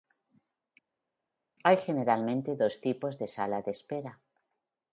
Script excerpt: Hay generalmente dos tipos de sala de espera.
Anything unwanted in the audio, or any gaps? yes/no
no